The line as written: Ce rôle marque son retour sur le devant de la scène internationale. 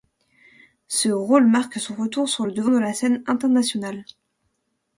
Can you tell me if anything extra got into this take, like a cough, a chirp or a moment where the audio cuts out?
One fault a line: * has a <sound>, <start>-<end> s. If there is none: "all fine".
all fine